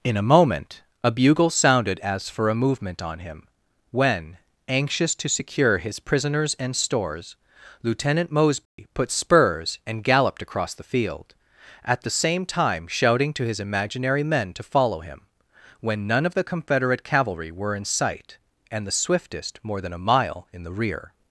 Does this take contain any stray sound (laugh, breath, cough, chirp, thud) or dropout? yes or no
yes